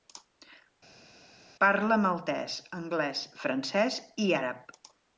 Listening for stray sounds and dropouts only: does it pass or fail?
pass